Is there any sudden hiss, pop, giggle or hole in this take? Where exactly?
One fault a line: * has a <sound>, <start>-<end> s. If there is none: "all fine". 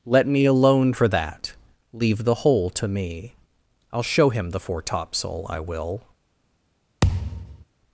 * has a thud, 7.0-7.6 s